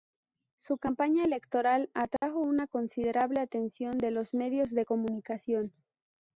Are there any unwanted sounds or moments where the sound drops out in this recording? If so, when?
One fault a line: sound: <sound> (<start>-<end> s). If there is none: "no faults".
sound: dropout (2.2-2.2 s)